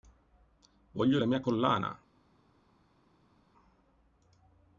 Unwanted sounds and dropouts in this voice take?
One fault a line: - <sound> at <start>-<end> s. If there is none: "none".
none